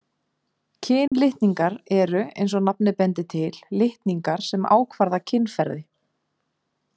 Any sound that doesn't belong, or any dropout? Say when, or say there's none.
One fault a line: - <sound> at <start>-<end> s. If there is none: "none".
- dropout at 1.1-1.1 s